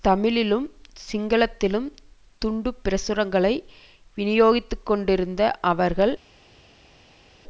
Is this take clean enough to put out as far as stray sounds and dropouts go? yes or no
yes